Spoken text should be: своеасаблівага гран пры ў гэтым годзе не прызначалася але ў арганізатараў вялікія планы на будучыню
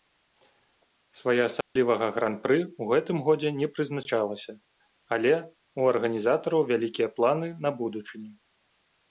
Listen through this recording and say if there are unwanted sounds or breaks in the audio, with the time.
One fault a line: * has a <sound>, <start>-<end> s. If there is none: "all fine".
* has a dropout, 1.6-1.8 s